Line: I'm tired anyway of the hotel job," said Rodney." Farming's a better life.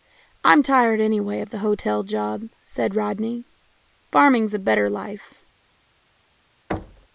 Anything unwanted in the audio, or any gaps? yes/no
yes